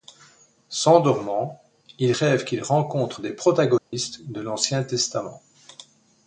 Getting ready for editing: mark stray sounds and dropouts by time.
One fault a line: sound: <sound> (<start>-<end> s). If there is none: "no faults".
sound: dropout (3.8-3.9 s)